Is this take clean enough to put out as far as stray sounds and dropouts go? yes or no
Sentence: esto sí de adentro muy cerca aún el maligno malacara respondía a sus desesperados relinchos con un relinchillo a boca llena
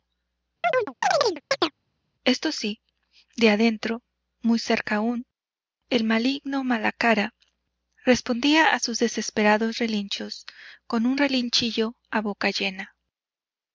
no